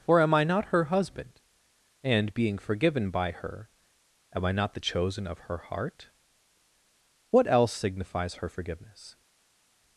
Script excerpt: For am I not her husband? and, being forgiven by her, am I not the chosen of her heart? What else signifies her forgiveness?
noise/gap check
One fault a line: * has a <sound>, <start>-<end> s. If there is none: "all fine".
all fine